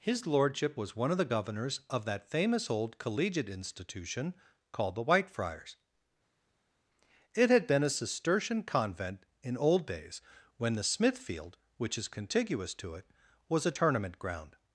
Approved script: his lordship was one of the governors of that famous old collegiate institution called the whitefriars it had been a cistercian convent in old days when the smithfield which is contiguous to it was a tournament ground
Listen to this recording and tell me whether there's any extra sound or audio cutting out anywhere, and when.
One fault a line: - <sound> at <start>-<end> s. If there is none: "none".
none